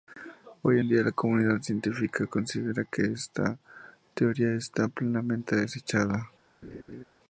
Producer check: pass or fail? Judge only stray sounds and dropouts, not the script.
fail